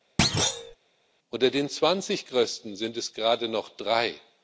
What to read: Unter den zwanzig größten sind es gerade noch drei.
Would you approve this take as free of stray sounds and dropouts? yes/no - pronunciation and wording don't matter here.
no